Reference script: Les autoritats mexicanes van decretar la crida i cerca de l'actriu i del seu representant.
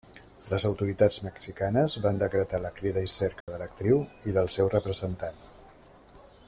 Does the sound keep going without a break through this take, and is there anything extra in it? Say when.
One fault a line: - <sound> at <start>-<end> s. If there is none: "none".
- dropout at 3.4-3.5 s